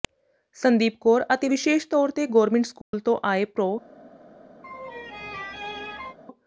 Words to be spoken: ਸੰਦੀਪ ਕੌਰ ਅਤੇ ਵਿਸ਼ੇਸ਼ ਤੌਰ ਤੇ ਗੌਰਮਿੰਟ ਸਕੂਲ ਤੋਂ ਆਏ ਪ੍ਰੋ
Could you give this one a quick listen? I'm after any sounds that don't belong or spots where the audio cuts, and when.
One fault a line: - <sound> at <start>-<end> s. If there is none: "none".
- dropout at 2.8-2.9 s
- laugh at 4.6-6.2 s